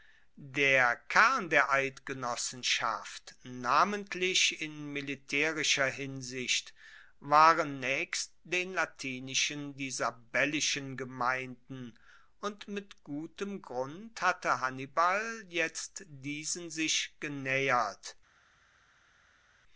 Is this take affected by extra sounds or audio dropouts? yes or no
no